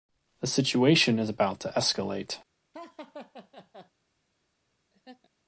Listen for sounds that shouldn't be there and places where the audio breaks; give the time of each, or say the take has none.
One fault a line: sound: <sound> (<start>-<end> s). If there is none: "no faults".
sound: laugh (2.7-3.9 s)
sound: laugh (4.9-5.3 s)